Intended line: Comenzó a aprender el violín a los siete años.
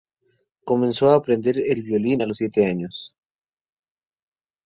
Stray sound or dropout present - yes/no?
no